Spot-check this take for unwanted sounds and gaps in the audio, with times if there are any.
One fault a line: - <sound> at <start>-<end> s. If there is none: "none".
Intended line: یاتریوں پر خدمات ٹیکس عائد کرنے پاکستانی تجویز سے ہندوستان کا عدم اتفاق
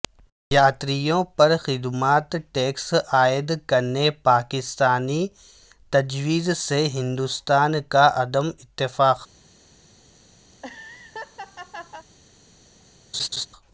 - laugh at 10.5-12.1 s
- laugh at 13.1-13.5 s